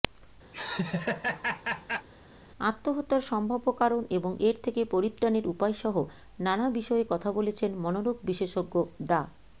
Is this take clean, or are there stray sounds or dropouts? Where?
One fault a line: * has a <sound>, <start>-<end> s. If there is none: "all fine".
* has a laugh, 0.5-2.1 s